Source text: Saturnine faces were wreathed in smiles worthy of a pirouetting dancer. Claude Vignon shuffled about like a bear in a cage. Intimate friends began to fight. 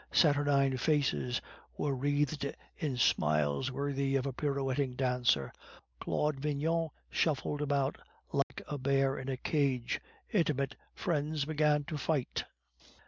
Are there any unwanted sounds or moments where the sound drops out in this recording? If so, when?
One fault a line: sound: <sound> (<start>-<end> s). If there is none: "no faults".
sound: dropout (8.4-8.5 s)